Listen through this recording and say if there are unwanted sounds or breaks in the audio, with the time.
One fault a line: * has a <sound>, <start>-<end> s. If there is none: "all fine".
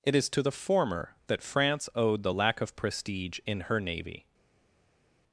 all fine